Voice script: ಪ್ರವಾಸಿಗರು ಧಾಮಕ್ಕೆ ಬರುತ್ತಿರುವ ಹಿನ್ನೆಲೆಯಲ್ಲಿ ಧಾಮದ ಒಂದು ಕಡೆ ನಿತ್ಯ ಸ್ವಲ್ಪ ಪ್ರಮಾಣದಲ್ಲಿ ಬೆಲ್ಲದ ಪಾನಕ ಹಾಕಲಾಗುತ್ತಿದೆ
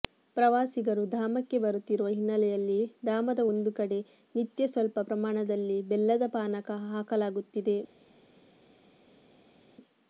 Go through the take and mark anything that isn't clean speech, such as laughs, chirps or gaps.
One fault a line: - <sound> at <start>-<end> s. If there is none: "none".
none